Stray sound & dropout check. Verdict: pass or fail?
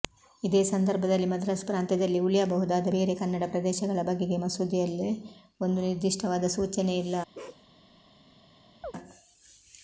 fail